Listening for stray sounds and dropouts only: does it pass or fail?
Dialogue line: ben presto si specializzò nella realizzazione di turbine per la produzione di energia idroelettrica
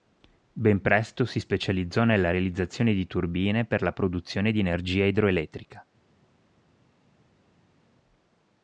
pass